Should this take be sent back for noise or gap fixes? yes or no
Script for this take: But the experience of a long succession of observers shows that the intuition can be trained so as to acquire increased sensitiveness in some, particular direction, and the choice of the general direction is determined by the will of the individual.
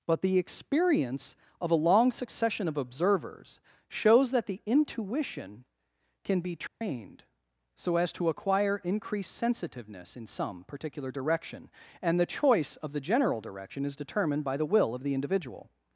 yes